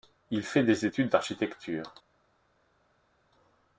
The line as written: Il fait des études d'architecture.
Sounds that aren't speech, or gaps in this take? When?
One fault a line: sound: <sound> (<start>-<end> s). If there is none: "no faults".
no faults